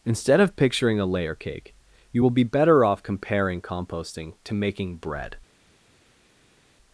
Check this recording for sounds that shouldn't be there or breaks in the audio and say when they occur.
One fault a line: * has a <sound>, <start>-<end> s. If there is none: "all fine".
all fine